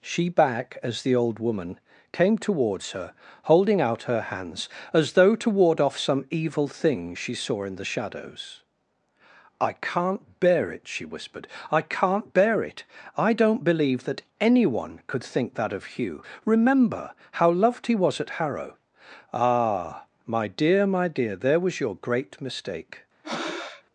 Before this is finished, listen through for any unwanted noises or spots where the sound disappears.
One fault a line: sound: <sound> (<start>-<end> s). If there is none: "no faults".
sound: breath (23.2-23.8 s)